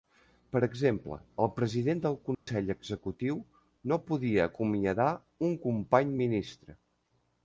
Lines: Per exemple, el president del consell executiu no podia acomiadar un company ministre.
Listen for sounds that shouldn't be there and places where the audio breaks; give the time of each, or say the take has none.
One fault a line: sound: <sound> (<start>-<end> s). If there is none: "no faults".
sound: dropout (2.3-2.5 s)